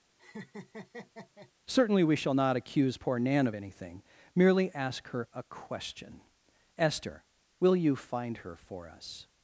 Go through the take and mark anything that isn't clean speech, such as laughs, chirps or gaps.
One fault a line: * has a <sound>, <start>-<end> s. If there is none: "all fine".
* has a laugh, 0.2-1.5 s